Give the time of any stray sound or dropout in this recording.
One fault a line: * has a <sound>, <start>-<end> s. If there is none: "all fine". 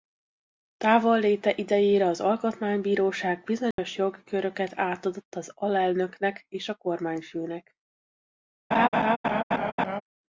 * has a dropout, 3.7-3.8 s
* has a laugh, 8.7-10.0 s